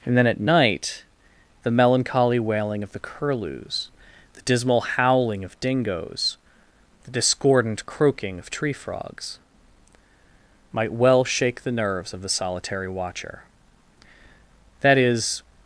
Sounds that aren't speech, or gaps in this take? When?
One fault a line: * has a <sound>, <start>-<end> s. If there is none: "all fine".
all fine